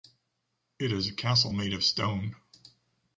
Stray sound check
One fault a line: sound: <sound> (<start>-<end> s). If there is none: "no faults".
no faults